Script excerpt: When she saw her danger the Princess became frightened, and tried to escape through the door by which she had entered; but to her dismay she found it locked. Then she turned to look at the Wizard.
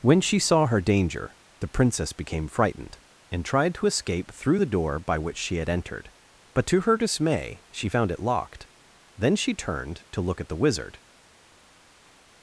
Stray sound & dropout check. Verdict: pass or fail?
pass